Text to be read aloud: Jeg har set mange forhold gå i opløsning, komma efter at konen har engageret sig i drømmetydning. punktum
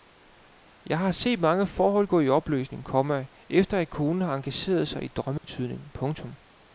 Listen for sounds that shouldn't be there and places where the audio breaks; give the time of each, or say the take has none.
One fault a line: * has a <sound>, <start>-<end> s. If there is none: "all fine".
* has a dropout, 5.4-5.4 s